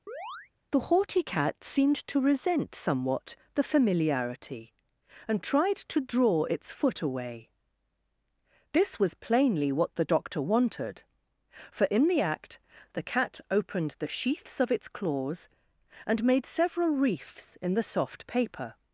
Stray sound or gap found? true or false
true